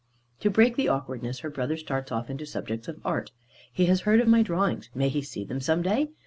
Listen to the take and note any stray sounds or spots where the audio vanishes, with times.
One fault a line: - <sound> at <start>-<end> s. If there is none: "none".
none